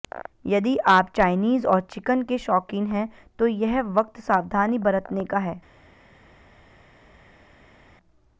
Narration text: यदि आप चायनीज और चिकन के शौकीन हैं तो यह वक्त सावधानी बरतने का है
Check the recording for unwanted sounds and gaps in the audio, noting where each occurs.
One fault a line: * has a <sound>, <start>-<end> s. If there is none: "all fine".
all fine